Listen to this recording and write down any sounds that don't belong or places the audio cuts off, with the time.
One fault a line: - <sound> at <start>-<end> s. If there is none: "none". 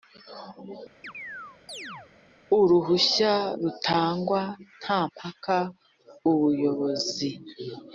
- chirp at 1.0-2.1 s